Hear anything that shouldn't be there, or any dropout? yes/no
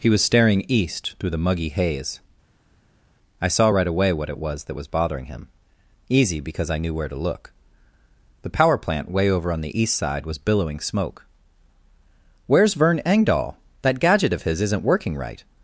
no